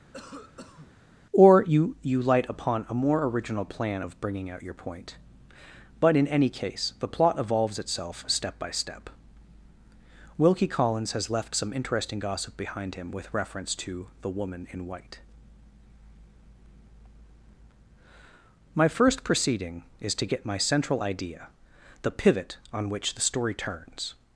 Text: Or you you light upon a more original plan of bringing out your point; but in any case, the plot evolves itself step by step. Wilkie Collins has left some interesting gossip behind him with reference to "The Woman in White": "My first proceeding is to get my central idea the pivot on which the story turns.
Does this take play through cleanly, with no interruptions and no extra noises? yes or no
no